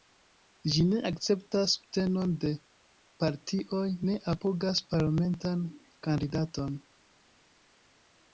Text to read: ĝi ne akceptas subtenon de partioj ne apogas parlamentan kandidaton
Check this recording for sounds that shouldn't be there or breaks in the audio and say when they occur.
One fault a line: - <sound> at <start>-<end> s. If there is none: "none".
none